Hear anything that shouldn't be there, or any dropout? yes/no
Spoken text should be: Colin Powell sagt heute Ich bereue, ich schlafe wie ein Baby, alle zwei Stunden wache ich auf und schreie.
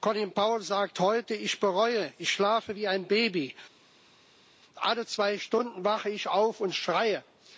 no